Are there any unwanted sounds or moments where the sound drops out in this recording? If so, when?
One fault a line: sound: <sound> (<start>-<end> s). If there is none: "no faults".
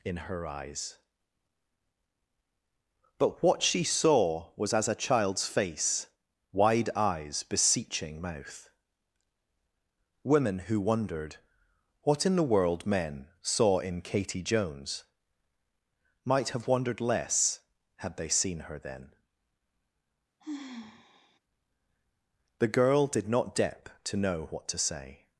sound: sigh (20.4-21.4 s)